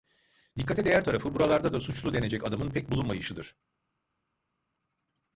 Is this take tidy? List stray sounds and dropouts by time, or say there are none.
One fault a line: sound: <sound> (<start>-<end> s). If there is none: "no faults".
no faults